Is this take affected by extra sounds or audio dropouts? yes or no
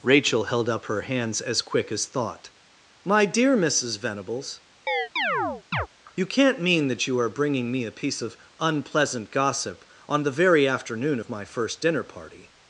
yes